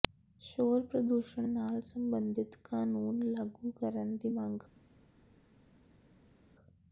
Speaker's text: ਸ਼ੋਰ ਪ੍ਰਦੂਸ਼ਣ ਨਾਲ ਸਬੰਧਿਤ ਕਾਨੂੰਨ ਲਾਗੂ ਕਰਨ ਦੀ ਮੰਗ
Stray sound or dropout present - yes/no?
no